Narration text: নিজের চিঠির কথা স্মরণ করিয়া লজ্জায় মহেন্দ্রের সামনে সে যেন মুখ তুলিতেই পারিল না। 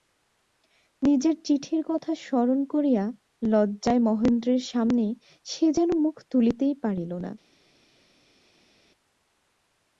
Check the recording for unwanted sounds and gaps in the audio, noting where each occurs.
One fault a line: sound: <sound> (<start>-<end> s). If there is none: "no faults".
no faults